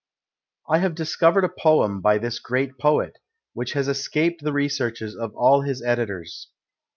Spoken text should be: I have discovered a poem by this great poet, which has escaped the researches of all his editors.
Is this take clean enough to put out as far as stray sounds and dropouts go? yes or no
yes